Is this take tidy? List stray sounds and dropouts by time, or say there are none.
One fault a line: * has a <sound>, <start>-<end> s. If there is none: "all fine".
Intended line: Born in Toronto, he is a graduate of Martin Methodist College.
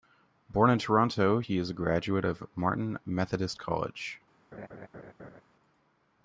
* has a laugh, 4.5-5.4 s